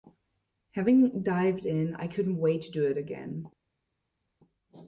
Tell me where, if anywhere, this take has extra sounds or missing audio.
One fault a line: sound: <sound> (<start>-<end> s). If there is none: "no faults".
no faults